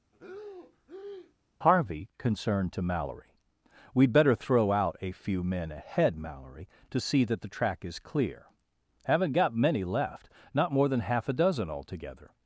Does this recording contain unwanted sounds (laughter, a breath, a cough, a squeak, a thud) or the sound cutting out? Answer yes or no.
yes